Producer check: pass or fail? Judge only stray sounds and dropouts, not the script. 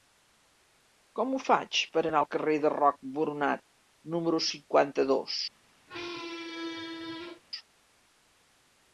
fail